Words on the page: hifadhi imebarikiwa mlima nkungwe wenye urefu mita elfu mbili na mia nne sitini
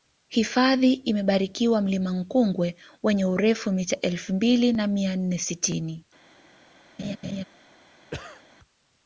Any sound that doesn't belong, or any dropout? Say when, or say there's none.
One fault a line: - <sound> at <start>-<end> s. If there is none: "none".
- laugh at 7.0-7.4 s
- cough at 8.1-8.4 s